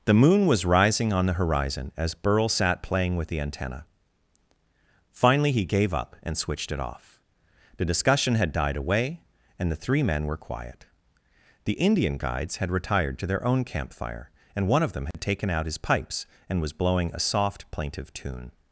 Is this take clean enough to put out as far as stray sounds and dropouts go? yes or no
no